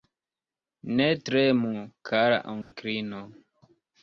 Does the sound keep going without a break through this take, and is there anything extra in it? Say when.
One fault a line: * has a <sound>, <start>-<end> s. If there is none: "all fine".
* has a dropout, 2.6-2.7 s